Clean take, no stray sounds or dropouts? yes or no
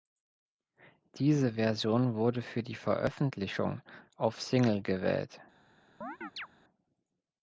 no